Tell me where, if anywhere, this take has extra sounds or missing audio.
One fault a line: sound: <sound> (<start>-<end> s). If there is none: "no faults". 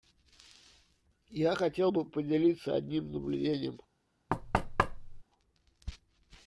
sound: thud (4.3-5.2 s)